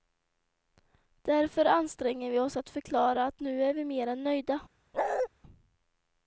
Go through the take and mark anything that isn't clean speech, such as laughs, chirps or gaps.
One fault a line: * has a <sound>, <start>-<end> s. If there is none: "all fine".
* has a bark, 4.9-5.3 s